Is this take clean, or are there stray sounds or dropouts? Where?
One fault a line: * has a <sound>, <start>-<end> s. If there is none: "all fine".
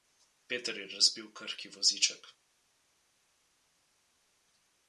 all fine